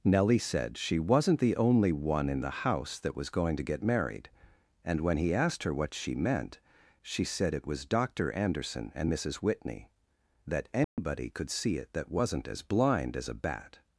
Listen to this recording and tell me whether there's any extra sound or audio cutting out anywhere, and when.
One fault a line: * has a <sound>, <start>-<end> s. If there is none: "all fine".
* has a dropout, 10.8-11.0 s